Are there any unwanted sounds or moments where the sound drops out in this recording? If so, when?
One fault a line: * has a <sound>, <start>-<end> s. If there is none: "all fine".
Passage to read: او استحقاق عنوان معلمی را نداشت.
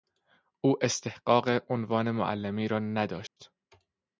* has a dropout, 3.3-3.4 s